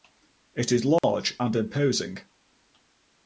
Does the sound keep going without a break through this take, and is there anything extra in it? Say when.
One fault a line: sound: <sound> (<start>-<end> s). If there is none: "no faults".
sound: dropout (1.0-1.0 s)